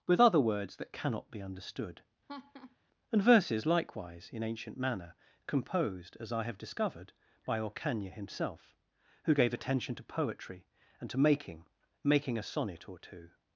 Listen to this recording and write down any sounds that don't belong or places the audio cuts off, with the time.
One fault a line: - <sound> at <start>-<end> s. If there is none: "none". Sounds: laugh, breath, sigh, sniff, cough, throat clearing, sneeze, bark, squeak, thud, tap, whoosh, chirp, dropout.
- laugh at 2.3-2.8 s